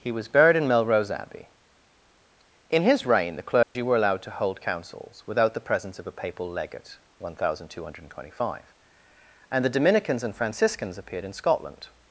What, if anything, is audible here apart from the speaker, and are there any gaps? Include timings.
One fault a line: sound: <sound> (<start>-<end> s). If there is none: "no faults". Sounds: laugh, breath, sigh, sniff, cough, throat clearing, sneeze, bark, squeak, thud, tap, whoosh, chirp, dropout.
sound: dropout (3.6-3.8 s)